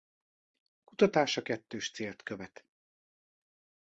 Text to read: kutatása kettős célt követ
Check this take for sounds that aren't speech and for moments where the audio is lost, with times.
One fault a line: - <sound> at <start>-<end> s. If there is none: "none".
none